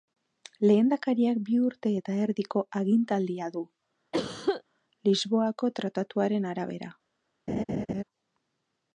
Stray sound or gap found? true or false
true